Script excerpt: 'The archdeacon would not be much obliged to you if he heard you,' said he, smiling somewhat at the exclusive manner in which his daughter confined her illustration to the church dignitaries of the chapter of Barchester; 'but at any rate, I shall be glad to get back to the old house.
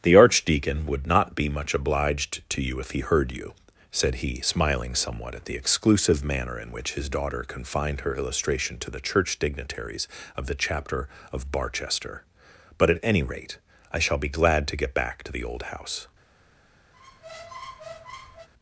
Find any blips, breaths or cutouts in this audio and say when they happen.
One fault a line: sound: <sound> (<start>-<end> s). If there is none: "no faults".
sound: squeak (16.9-18.5 s)